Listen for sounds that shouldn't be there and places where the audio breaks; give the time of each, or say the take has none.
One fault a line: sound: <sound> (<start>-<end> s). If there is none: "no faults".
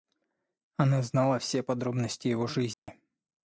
sound: dropout (2.7-2.9 s)